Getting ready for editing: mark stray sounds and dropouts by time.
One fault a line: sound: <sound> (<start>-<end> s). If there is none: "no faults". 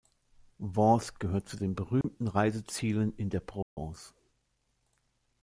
sound: dropout (2.0-2.0 s)
sound: dropout (3.6-3.8 s)